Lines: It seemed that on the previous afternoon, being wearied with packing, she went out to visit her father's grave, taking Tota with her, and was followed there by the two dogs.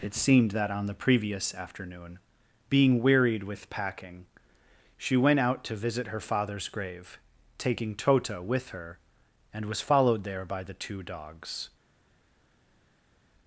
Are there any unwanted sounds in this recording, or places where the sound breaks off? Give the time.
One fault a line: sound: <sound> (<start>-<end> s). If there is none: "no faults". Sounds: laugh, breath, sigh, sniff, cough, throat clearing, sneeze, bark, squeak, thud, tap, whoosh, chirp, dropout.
no faults